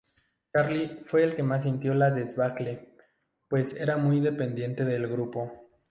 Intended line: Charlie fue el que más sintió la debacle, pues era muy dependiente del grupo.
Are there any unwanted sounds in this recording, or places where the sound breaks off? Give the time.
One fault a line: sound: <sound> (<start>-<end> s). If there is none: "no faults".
no faults